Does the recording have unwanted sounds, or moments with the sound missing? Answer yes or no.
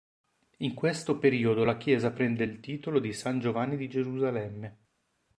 no